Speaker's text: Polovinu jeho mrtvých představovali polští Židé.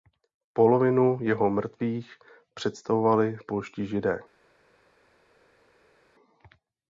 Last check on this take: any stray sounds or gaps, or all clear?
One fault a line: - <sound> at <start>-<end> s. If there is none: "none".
none